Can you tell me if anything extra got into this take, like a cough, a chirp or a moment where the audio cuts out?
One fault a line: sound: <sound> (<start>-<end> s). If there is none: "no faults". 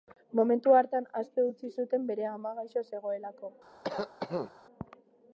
sound: cough (3.8-4.5 s)